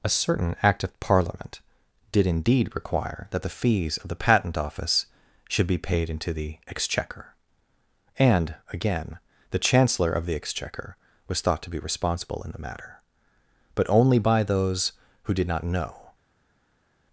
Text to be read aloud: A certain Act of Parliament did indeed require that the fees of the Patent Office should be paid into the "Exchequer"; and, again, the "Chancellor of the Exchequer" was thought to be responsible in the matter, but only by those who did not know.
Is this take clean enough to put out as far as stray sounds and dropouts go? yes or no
yes